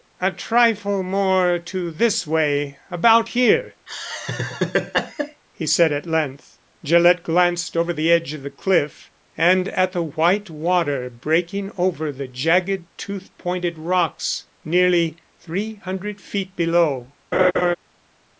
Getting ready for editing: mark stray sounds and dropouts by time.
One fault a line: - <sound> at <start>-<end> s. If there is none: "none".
- laugh at 3.9-5.4 s
- laugh at 17.3-17.8 s